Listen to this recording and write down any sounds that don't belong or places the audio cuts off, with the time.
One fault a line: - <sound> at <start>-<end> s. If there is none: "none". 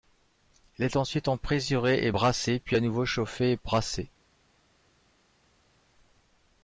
none